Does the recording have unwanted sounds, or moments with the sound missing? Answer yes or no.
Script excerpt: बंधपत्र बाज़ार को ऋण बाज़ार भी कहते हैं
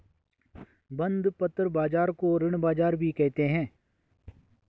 no